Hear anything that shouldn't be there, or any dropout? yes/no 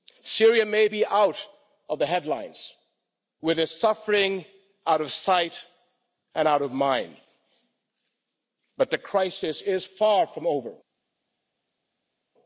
no